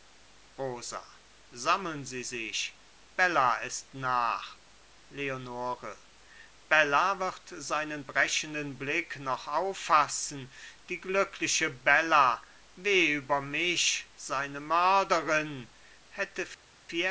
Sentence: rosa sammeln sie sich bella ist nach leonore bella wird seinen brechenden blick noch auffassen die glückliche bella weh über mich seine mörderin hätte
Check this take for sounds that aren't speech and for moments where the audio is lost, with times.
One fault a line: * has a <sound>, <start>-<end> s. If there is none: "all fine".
all fine